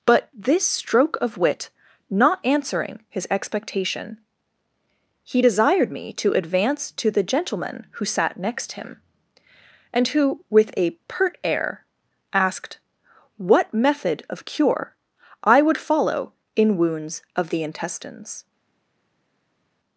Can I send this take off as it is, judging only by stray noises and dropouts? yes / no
yes